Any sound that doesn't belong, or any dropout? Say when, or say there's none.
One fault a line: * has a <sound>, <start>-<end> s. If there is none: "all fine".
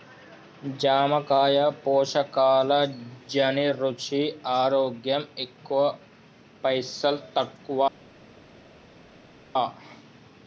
all fine